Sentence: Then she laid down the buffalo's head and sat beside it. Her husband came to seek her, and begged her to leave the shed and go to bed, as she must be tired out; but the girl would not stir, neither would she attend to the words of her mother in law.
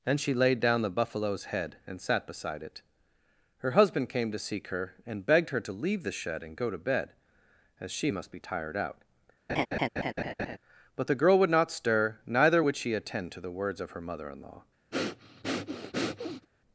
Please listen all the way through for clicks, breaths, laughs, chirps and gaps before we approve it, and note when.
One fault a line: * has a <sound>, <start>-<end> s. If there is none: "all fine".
* has a laugh, 9.5-10.6 s
* has a breath, 14.9-16.5 s